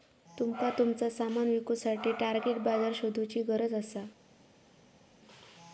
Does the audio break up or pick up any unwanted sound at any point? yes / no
no